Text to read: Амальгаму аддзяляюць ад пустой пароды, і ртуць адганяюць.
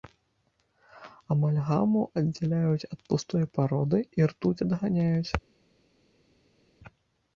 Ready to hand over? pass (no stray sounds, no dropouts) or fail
pass